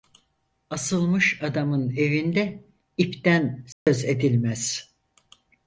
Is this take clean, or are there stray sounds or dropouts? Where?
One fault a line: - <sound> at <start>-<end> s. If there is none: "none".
- dropout at 3.7-3.9 s